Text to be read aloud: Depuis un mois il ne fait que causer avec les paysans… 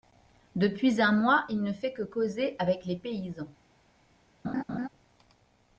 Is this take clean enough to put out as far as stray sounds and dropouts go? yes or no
no